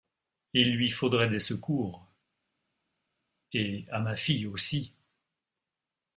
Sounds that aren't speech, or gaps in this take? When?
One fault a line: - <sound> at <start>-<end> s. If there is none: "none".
none